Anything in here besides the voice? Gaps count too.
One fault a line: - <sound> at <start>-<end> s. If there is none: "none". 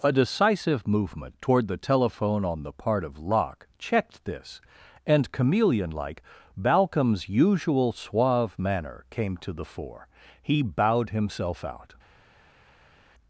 none